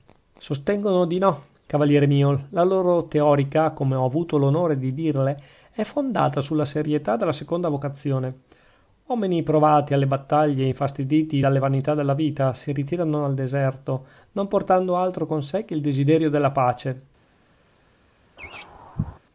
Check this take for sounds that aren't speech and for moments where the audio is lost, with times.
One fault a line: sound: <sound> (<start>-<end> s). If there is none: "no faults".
sound: laugh (18.4-19.2 s)